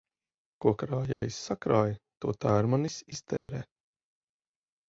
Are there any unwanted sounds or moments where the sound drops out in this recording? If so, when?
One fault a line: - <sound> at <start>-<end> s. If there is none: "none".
- dropout at 1.1-1.2 s
- dropout at 3.4-3.5 s